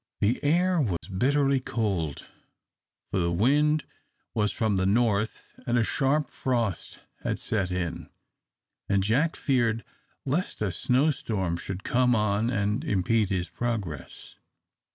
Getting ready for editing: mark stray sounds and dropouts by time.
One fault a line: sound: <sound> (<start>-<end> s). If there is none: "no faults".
sound: dropout (1.0-1.0 s)